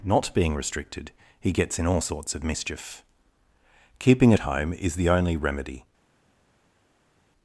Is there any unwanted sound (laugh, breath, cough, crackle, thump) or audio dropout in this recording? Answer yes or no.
no